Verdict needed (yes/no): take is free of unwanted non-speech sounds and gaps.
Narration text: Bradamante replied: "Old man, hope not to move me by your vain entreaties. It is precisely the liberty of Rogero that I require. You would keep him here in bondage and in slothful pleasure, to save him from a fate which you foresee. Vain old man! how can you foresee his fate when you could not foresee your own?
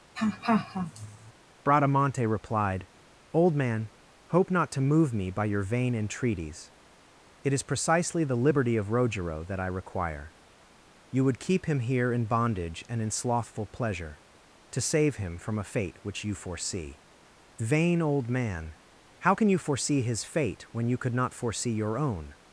no